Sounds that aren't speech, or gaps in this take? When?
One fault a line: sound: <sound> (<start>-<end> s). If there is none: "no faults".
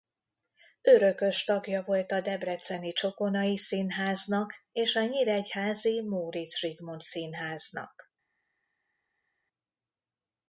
no faults